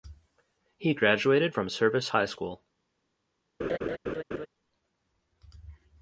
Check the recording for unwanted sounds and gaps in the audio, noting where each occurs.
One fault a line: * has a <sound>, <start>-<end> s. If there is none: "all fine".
* has a laugh, 3.6-4.5 s